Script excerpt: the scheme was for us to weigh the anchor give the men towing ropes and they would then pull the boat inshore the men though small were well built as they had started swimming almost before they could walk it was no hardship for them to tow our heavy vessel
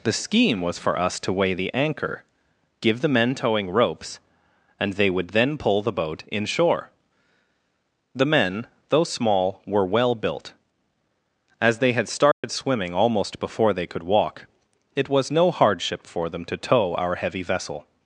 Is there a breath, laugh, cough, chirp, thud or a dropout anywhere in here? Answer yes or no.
yes